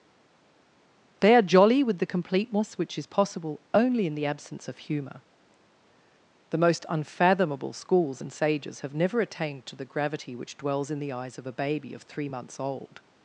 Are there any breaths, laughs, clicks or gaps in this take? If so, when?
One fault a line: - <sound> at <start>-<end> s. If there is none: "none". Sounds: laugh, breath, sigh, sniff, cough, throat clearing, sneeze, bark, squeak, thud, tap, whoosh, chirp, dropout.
none